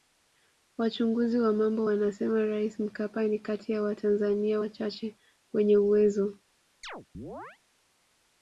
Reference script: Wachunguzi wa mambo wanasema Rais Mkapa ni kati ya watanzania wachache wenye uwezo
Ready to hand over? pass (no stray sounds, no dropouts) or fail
fail